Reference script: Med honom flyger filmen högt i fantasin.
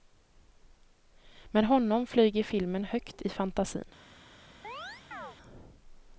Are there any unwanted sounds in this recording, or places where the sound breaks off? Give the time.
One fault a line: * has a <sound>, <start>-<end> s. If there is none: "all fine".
* has a chirp, 4.6-5.4 s